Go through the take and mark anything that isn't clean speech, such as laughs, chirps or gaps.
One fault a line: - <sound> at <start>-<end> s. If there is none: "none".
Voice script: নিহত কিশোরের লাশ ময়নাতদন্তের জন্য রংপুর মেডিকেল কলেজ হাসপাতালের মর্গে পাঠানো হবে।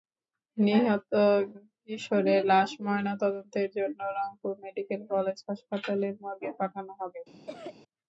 - cough at 7.5-7.7 s